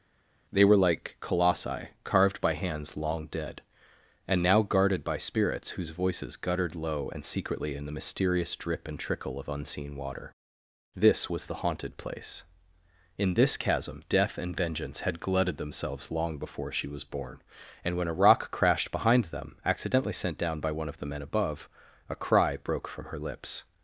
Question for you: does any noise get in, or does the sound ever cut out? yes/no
no